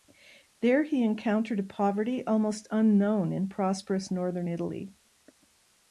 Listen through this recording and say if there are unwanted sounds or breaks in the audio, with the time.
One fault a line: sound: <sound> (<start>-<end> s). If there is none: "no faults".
no faults